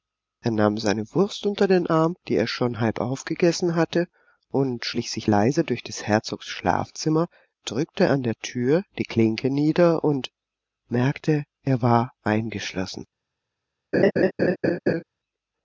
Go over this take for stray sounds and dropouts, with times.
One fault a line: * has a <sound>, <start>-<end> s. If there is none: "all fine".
* has a laugh, 13.9-15.0 s